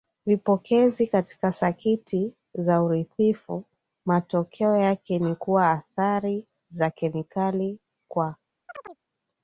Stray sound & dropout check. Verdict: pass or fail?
fail